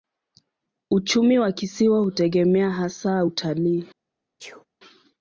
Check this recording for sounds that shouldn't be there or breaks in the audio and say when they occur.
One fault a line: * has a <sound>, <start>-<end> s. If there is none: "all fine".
* has a sneeze, 4.4-4.7 s